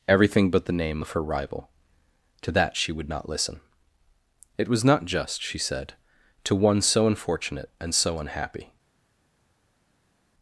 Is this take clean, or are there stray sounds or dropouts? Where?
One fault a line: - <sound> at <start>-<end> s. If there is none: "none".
none